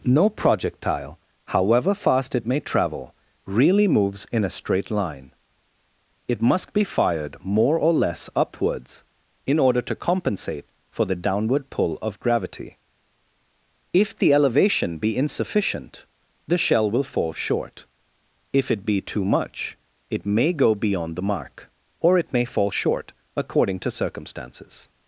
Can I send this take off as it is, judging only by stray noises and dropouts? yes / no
yes